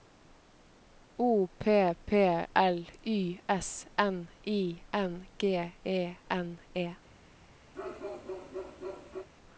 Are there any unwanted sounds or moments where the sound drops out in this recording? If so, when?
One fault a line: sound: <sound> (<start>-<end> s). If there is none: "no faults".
sound: bark (7.7-9.3 s)